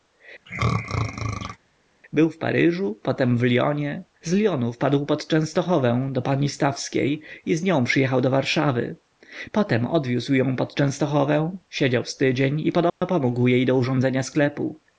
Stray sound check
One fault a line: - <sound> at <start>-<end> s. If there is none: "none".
- throat clearing at 0.5-1.6 s
- dropout at 12.9-13.0 s